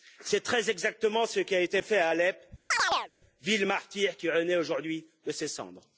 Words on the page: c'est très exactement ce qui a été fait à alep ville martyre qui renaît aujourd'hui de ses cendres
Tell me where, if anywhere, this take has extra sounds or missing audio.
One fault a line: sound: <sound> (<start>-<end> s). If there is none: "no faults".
sound: chirp (2.7-3.1 s)